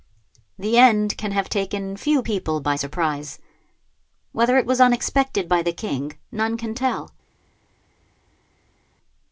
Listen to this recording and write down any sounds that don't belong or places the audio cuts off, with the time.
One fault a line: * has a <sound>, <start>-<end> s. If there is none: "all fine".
all fine